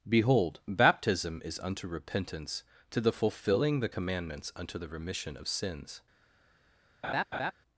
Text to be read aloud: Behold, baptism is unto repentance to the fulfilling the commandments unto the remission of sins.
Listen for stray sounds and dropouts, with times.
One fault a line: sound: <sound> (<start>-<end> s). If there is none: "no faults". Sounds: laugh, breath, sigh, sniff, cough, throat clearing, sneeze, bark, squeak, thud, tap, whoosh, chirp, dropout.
sound: laugh (7.0-7.5 s)